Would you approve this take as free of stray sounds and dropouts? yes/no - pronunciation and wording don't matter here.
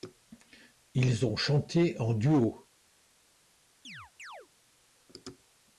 no